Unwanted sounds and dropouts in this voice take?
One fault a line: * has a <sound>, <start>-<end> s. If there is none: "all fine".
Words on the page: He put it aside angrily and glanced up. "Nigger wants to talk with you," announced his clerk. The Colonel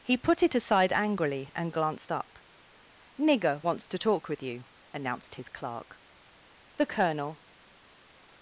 all fine